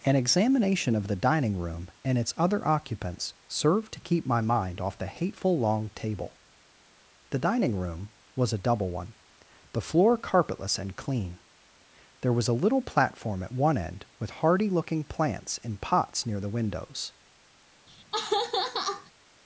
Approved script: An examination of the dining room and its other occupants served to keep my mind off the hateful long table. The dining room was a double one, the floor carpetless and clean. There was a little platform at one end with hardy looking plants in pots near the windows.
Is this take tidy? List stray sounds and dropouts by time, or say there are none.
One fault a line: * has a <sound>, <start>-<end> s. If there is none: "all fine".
* has a laugh, 17.9-19.1 s